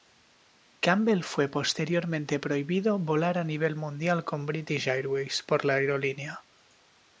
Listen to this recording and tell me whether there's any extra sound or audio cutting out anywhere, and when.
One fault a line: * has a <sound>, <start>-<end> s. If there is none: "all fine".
all fine